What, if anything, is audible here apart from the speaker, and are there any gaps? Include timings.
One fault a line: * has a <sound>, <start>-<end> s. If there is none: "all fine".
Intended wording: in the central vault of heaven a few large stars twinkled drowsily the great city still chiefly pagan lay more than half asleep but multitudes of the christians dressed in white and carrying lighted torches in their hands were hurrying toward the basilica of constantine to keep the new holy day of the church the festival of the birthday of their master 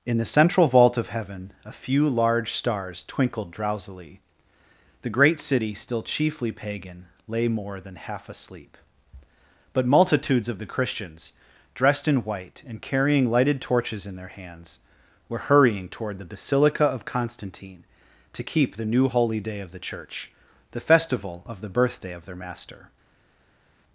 all fine